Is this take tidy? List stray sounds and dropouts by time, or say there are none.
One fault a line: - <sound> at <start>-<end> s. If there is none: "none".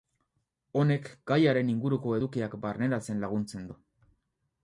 none